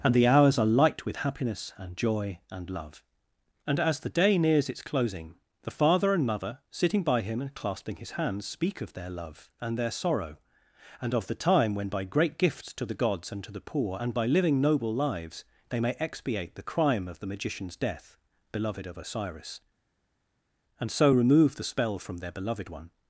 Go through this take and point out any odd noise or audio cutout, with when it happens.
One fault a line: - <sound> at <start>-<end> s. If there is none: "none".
none